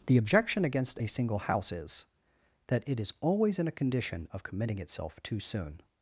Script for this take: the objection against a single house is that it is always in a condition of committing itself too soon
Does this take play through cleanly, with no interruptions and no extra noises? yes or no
yes